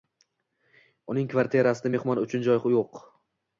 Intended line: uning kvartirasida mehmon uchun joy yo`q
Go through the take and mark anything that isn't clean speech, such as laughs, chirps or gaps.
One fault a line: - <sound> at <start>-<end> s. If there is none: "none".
none